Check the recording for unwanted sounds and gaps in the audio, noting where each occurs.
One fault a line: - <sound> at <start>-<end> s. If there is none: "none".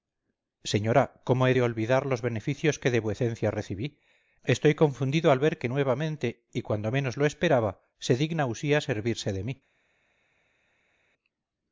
none